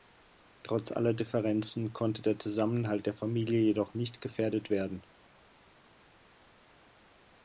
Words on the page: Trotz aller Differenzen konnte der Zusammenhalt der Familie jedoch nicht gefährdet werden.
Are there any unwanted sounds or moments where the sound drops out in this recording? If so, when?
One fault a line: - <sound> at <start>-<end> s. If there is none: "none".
none